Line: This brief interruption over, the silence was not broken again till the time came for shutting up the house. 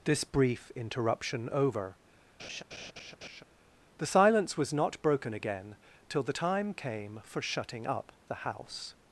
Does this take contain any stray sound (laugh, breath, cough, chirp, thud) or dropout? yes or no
yes